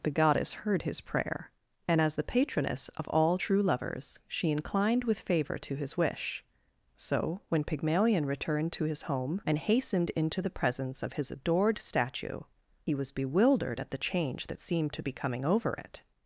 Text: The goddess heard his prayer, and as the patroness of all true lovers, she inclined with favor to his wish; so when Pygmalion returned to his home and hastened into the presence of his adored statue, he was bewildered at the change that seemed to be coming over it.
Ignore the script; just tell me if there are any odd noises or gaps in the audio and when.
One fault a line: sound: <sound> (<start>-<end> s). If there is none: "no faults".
no faults